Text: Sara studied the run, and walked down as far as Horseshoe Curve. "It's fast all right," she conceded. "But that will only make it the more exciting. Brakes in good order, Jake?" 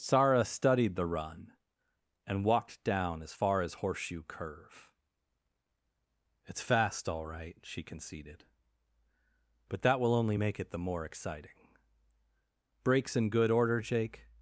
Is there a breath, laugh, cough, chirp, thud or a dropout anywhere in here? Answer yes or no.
no